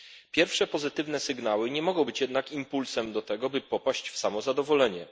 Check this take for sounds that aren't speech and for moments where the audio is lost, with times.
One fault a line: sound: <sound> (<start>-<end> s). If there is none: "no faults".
no faults